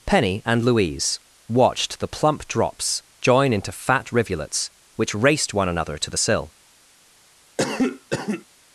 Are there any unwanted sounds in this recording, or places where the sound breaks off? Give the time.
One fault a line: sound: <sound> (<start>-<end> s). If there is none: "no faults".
sound: cough (7.6-8.5 s)